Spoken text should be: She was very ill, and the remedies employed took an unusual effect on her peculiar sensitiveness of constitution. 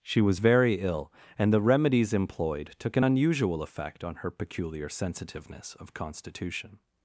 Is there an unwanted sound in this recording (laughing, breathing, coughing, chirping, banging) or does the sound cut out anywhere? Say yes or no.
no